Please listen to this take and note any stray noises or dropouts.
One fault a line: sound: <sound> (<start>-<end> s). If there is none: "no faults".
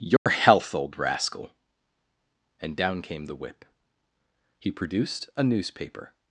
sound: dropout (0.2-0.3 s)